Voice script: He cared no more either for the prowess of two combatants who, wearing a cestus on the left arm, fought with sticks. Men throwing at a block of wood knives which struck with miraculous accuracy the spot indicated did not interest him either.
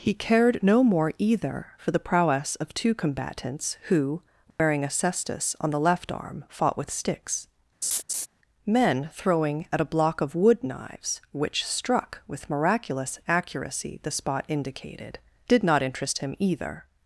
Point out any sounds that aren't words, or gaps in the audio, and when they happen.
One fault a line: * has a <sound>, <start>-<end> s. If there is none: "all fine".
* has a dropout, 4.5-4.6 s
* has a laugh, 7.8-8.3 s